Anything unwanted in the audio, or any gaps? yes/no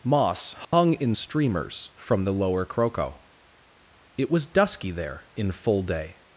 yes